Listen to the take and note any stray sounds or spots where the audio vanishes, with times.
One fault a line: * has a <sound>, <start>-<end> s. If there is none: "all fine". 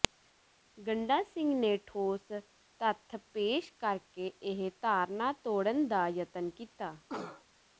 * has a cough, 7.1-7.4 s